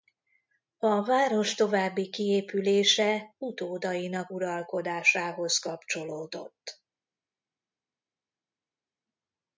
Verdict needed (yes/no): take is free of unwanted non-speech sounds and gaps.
yes